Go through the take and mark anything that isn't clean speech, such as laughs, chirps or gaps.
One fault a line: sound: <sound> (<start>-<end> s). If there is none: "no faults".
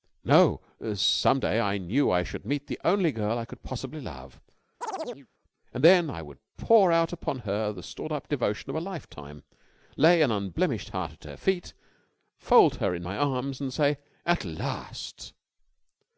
sound: chirp (4.8-5.3 s)